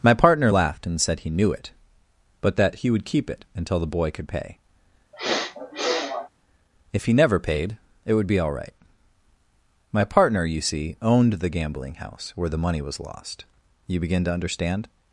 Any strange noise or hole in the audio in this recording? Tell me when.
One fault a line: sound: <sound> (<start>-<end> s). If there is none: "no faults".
sound: sniff (5.1-6.3 s)